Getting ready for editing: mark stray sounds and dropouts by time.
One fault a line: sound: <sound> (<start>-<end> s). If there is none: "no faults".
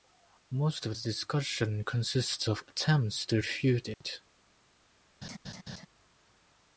sound: dropout (3.9-4.0 s)
sound: laugh (5.2-5.9 s)